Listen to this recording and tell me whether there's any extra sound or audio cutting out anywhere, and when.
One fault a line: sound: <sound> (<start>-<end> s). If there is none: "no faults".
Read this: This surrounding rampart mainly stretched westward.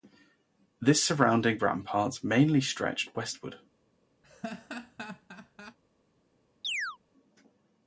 sound: laugh (4.2-5.8 s)
sound: chirp (6.6-7.0 s)